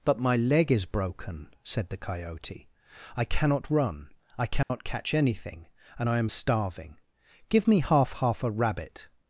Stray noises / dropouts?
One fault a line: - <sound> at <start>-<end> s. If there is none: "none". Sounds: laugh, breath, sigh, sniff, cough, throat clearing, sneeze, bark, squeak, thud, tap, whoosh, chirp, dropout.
- dropout at 4.6-4.7 s